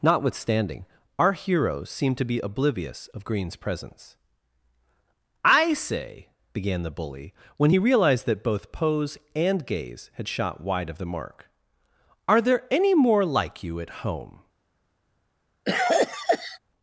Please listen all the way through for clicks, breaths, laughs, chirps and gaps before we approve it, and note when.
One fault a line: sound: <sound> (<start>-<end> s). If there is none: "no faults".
sound: cough (15.6-16.6 s)